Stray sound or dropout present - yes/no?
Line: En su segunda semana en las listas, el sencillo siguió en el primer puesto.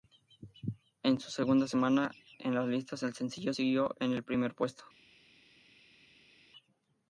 no